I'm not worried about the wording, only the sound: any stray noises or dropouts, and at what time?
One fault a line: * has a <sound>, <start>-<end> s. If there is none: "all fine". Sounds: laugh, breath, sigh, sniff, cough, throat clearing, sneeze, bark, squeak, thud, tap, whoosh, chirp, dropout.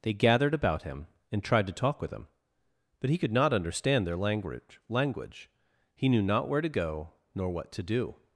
all fine